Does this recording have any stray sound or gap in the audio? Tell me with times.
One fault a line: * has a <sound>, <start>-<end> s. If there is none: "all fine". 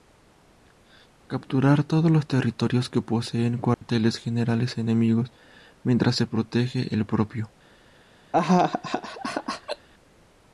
* has a dropout, 3.7-3.8 s
* has a laugh, 8.3-9.9 s